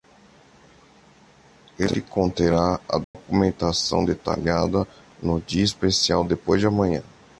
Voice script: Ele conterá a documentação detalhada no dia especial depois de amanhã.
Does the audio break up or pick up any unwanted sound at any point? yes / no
yes